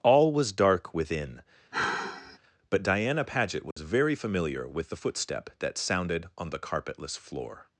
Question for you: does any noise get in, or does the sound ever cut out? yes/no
yes